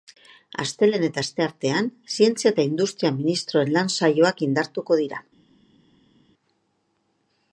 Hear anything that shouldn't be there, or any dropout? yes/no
no